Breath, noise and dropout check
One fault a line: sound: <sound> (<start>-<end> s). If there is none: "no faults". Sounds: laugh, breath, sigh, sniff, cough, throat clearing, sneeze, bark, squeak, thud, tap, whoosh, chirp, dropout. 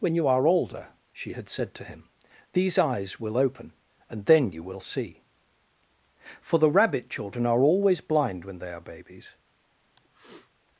sound: sniff (10.0-10.5 s)